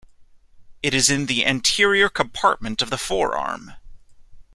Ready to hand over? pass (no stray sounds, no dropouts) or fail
pass